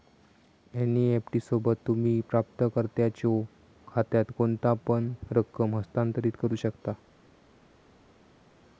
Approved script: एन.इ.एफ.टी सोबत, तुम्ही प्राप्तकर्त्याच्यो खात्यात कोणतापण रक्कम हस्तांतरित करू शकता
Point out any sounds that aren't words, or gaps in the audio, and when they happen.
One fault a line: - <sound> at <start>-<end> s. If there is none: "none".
none